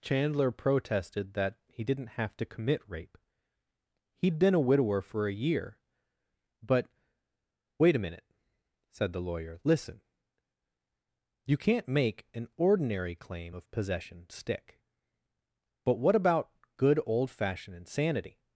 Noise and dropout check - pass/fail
pass